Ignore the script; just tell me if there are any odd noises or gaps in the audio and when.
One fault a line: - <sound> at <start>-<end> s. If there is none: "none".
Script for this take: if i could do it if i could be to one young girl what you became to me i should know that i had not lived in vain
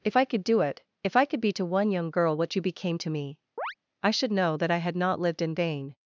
- chirp at 3.6-3.7 s